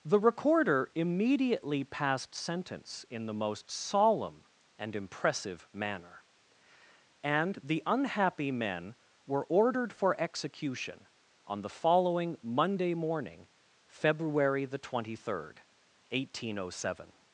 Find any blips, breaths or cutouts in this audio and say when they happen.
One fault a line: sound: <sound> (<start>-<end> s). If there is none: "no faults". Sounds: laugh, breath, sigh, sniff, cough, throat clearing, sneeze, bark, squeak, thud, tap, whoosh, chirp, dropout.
no faults